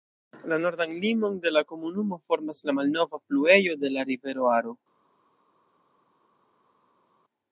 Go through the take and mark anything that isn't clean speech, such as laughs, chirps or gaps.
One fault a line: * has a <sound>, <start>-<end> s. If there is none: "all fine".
all fine